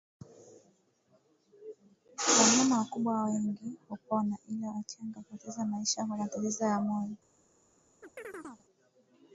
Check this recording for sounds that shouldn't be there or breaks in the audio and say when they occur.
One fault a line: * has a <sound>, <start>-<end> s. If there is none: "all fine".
* has a chirp, 8.0-8.7 s